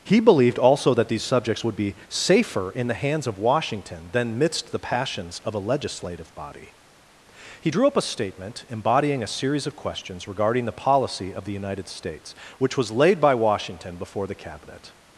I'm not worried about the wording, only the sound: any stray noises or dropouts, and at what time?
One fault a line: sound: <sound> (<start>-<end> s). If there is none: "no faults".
no faults